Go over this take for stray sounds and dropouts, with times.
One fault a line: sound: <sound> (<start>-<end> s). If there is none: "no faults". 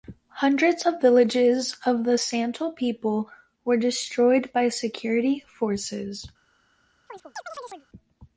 sound: chirp (7.1-7.9 s)